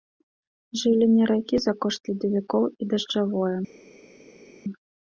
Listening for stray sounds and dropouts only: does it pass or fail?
pass